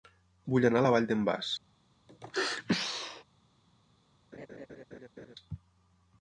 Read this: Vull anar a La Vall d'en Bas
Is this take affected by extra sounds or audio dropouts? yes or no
yes